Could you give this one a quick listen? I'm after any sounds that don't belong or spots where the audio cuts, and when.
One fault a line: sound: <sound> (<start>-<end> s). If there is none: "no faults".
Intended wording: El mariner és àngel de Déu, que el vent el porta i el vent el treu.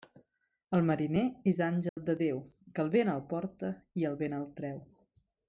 sound: dropout (1.9-2.0 s)